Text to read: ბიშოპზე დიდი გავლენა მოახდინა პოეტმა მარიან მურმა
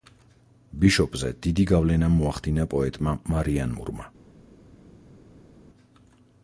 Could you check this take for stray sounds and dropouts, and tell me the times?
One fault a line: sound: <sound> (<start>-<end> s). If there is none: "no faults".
no faults